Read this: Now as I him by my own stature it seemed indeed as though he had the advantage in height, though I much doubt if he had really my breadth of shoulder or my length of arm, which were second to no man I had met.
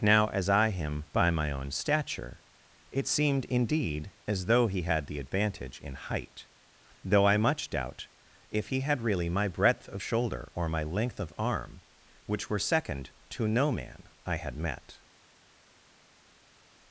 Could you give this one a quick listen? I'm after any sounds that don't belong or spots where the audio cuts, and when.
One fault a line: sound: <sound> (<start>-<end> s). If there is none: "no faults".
no faults